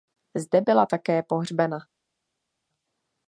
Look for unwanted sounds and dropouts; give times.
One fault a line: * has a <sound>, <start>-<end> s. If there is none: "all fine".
all fine